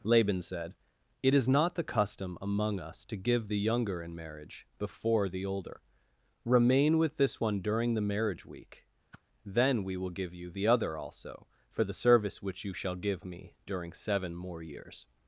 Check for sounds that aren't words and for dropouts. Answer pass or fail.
fail